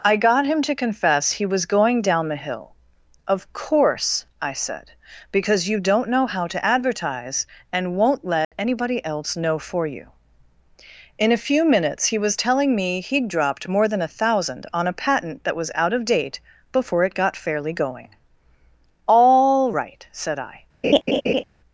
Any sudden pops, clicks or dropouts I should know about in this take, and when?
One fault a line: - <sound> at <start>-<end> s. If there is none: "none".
- dropout at 8.4-8.5 s
- laugh at 20.8-21.4 s